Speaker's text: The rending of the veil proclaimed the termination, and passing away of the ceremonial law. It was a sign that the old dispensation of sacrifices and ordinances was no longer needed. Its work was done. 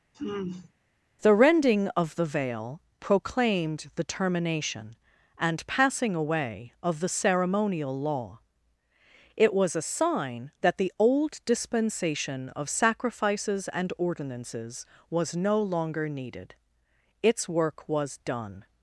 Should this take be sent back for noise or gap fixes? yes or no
yes